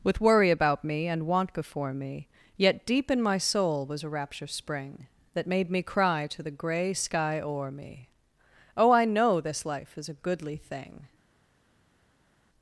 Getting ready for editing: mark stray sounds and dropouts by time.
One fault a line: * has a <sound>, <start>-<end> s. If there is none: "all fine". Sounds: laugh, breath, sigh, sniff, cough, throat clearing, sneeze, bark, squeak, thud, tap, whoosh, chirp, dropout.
all fine